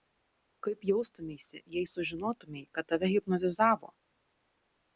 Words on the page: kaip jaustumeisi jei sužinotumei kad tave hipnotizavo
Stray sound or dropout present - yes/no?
no